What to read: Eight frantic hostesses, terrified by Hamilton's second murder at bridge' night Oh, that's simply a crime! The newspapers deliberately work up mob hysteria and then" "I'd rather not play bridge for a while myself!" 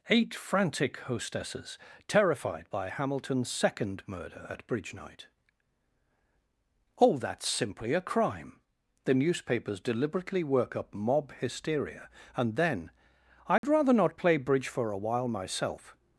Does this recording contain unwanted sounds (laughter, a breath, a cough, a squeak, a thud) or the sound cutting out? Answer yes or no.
yes